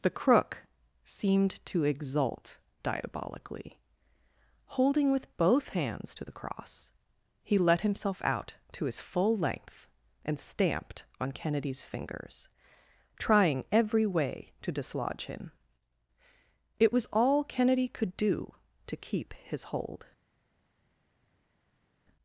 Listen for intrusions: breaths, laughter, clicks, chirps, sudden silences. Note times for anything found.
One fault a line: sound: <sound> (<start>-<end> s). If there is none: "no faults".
no faults